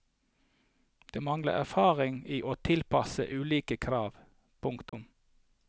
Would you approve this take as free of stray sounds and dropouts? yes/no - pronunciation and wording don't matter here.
no